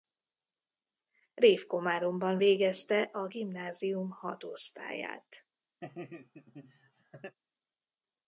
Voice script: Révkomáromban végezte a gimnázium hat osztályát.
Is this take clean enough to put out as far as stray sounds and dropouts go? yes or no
no